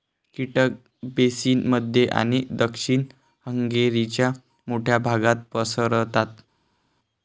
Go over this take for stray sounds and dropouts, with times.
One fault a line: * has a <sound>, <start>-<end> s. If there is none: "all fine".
all fine